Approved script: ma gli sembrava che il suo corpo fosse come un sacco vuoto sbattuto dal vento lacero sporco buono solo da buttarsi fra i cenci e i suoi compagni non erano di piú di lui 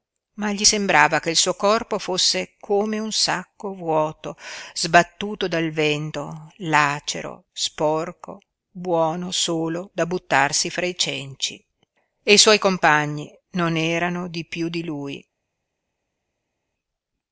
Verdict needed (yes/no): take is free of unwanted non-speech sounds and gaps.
yes